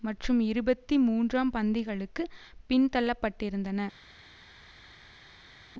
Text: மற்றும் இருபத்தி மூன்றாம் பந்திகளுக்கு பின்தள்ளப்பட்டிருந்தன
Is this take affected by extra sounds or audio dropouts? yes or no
no